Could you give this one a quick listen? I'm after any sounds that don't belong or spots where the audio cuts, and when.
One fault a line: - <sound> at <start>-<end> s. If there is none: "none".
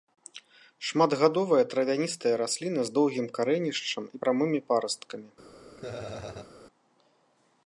- laugh at 5.8-6.5 s